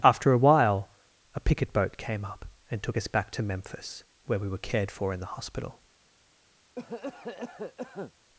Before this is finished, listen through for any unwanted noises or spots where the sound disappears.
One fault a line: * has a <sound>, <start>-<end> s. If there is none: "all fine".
* has a cough, 6.8-8.1 s